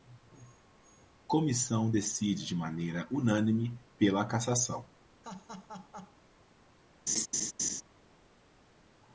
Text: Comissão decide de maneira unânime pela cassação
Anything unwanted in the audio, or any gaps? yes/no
yes